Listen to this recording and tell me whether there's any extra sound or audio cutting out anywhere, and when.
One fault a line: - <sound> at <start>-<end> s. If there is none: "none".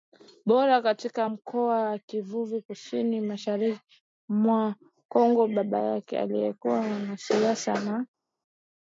none